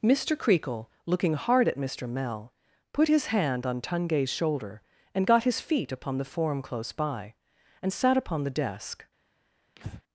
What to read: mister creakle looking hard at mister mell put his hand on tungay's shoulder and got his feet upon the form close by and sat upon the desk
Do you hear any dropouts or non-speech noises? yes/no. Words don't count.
yes